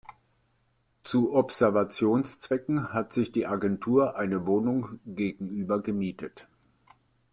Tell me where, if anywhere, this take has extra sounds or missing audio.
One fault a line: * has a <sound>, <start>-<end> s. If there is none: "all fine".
all fine